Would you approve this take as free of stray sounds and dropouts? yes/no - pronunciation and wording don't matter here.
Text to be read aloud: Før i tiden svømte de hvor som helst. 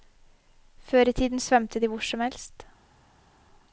yes